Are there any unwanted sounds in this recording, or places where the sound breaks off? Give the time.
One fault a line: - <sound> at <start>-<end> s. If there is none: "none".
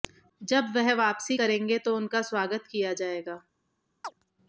- chirp at 4.0-4.1 s